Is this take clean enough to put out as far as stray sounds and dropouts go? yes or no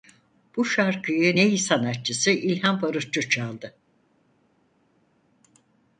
yes